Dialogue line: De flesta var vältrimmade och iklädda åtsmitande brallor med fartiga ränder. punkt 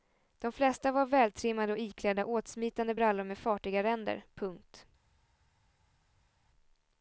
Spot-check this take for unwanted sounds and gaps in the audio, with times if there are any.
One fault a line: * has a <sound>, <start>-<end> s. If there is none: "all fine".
all fine